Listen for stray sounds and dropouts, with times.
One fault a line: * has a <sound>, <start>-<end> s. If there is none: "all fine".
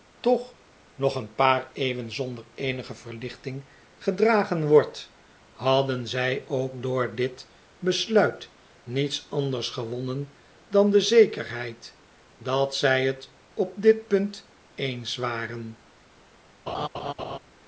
* has a laugh, 16.7-17.4 s